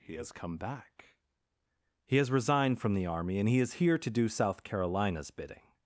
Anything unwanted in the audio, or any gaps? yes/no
no